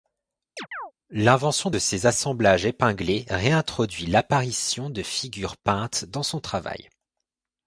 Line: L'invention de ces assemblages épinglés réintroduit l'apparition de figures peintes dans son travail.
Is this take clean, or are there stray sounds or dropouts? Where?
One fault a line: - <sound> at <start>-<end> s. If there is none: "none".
- chirp at 0.6-0.9 s